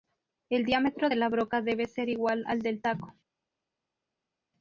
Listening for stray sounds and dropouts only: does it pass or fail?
pass